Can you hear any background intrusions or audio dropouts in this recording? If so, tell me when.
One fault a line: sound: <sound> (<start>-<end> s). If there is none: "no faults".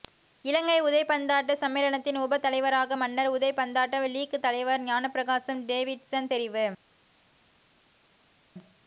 no faults